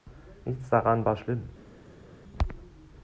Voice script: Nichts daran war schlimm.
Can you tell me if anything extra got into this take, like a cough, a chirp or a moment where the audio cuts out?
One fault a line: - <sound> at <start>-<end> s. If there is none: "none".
none